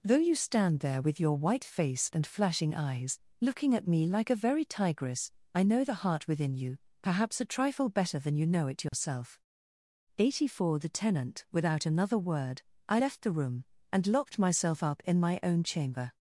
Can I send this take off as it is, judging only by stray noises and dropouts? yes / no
no